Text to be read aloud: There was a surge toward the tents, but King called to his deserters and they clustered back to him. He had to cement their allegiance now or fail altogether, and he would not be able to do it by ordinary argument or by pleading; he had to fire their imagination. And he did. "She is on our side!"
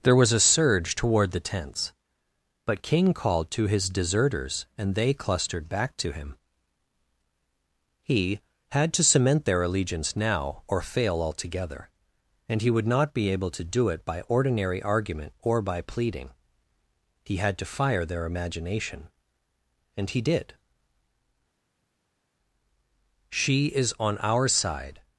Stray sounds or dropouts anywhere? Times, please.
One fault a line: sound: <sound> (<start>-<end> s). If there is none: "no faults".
no faults